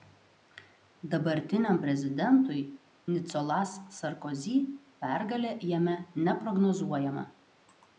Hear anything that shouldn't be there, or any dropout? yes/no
no